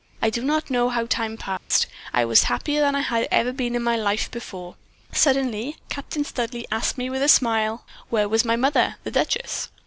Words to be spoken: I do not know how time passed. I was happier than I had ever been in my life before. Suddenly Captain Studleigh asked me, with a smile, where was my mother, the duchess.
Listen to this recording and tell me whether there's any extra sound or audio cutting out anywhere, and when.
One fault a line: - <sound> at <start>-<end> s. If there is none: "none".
- dropout at 1.6-1.7 s